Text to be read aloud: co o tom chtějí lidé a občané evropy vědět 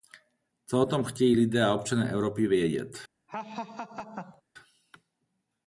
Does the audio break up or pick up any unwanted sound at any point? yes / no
yes